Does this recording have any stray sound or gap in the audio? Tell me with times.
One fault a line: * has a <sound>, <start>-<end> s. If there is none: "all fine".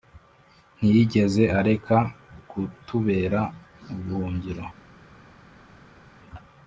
all fine